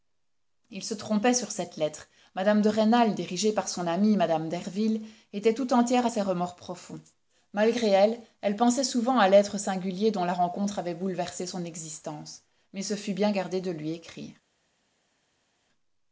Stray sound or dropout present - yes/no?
no